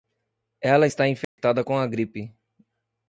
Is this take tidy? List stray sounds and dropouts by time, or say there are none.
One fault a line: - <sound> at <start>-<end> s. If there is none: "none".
- dropout at 1.2-1.4 s